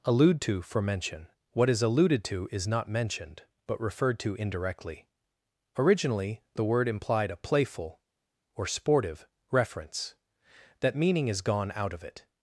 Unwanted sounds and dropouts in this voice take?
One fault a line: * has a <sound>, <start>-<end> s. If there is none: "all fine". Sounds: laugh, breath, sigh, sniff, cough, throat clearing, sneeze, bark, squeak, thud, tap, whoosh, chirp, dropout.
all fine